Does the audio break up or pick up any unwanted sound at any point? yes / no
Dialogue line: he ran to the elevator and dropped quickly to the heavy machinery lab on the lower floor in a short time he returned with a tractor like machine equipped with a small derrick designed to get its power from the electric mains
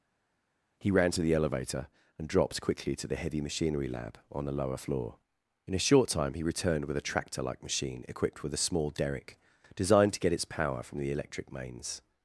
no